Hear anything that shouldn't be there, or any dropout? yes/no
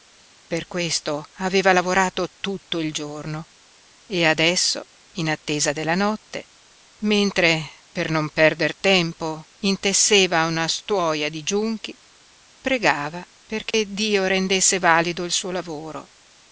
yes